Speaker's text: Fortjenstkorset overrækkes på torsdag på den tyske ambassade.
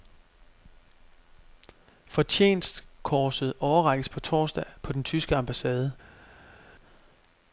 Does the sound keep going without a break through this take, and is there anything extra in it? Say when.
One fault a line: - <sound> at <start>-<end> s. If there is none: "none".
none